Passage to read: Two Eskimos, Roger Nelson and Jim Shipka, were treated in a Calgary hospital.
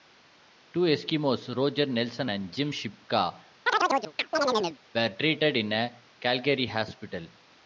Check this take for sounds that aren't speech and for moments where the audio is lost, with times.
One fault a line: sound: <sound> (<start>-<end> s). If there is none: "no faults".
sound: chirp (3.7-4.8 s)